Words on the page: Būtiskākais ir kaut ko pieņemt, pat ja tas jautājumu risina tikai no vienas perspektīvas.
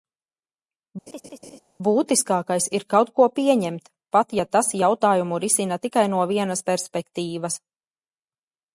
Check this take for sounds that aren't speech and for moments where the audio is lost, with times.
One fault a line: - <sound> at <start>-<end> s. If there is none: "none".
- laugh at 1.1-1.6 s